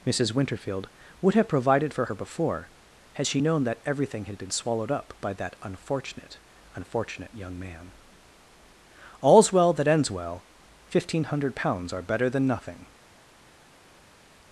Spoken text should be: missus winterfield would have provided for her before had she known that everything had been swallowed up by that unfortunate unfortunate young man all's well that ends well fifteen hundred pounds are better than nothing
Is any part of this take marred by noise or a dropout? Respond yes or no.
no